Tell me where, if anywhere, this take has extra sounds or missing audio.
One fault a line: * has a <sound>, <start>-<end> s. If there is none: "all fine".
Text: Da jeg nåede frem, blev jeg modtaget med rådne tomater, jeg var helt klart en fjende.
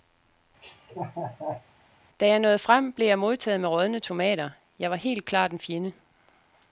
* has a laugh, 0.6-1.7 s